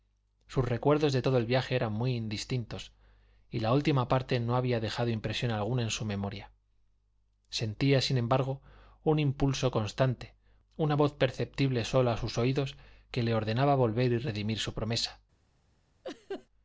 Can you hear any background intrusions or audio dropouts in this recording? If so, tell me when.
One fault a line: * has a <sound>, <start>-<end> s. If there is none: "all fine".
* has a laugh, 16.0-16.5 s